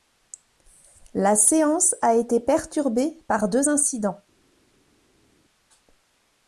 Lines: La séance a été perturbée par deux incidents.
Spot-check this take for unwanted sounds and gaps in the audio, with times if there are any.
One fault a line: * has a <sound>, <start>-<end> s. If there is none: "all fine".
all fine